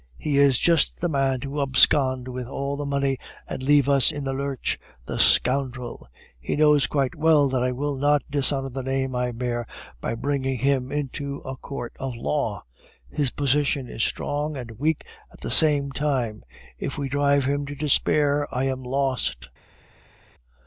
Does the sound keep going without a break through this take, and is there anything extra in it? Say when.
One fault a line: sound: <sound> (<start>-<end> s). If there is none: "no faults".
no faults